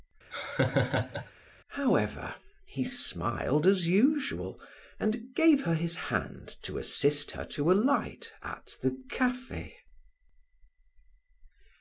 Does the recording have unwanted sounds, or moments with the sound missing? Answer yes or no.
yes